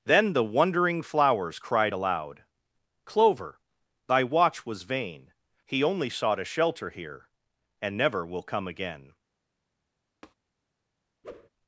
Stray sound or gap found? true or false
true